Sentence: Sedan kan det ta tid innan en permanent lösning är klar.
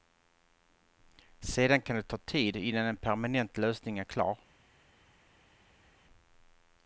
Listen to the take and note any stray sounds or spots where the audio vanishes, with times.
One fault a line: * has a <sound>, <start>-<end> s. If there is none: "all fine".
all fine